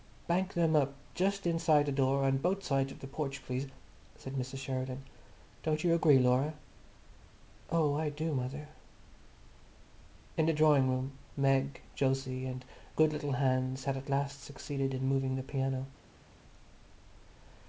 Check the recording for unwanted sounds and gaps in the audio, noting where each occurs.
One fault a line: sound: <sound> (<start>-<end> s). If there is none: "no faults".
no faults